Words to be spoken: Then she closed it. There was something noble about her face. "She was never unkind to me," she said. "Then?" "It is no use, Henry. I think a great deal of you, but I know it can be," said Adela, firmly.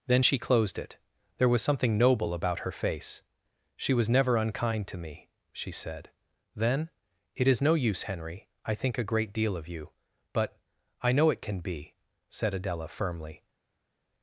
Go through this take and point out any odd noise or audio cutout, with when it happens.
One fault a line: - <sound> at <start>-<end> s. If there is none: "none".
none